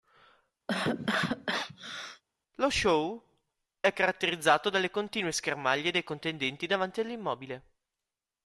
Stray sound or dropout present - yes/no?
yes